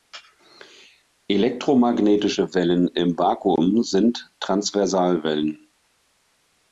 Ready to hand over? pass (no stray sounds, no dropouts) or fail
pass